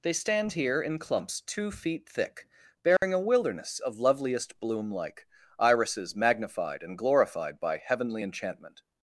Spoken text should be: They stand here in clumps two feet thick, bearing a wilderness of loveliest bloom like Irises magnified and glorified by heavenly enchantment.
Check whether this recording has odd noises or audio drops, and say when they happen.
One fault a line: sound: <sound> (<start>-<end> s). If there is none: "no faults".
sound: dropout (3.0-3.0 s)